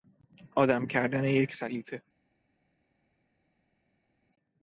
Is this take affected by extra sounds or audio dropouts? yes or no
no